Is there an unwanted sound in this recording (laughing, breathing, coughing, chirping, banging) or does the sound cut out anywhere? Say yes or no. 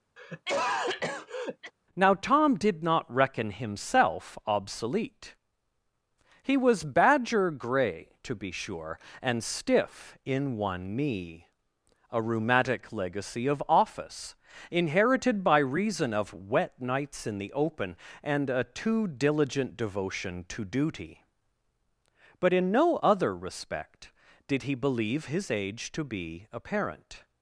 yes